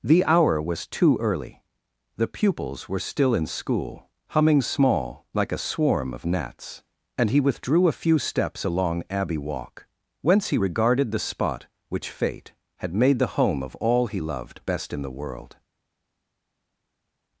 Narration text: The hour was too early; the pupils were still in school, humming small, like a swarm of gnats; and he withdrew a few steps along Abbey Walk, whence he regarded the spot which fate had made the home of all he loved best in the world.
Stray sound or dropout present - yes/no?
no